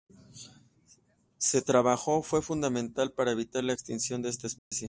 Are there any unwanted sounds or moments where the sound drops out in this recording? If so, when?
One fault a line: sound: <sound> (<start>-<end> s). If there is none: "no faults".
sound: dropout (4.6-4.7 s)